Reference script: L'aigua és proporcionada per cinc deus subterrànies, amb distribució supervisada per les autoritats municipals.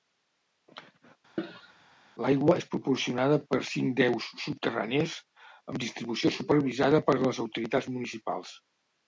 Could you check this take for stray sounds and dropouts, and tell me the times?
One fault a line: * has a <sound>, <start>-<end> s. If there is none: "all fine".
* has a cough, 1.4-1.7 s